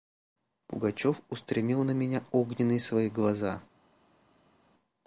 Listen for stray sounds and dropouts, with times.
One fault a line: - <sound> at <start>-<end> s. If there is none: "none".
none